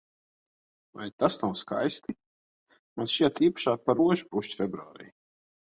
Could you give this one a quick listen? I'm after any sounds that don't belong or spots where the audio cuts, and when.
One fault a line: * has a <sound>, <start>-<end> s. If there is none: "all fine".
all fine